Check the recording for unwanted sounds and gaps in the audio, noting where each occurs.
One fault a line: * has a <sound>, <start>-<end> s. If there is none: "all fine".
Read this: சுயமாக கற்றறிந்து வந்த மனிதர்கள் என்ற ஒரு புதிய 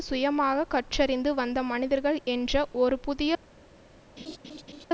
* has a laugh, 4.2-4.9 s